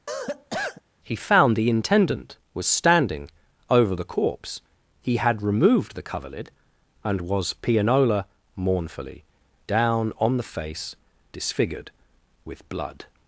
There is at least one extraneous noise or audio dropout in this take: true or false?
true